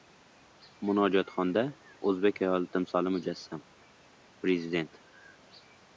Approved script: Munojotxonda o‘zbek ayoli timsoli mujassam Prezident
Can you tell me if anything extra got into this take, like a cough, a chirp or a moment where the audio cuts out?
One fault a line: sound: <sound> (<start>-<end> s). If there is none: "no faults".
no faults